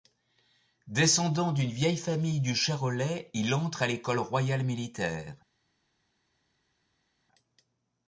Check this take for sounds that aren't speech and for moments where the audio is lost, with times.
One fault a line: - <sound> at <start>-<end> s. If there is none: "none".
none